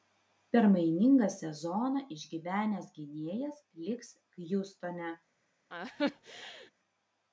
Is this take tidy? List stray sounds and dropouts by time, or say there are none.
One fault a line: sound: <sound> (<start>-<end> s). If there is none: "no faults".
sound: laugh (5.7-6.7 s)